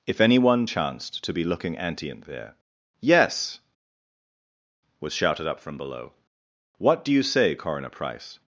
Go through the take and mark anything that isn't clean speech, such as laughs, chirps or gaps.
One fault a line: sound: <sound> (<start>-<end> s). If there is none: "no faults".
no faults